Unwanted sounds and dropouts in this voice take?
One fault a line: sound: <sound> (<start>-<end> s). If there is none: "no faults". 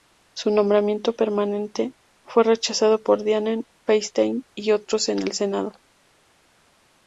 no faults